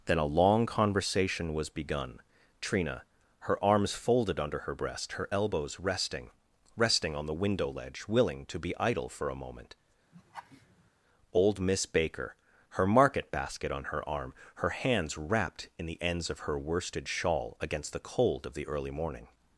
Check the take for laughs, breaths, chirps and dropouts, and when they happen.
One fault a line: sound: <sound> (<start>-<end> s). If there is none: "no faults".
sound: laugh (10.1-10.9 s)